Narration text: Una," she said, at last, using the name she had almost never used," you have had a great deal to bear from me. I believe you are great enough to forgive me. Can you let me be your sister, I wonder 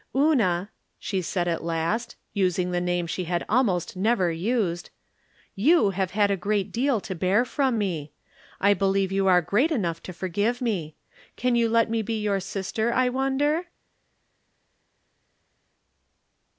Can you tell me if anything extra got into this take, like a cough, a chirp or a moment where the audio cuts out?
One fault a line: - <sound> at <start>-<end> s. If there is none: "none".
none